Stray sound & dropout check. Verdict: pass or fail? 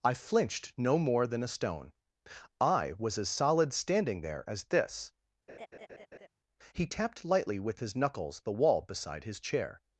fail